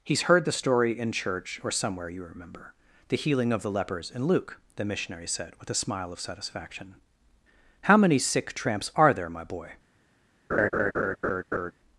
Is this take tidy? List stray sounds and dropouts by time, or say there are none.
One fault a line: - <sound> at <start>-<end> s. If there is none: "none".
- laugh at 10.5-11.7 s